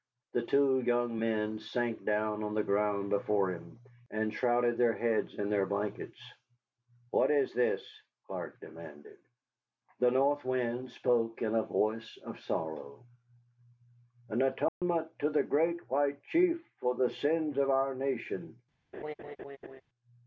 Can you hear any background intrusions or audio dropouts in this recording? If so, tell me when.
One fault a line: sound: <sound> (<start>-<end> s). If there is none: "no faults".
sound: dropout (14.7-14.8 s)
sound: laugh (18.9-19.8 s)